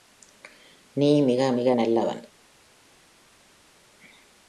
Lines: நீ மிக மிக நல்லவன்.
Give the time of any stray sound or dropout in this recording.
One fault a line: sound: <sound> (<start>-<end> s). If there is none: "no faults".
no faults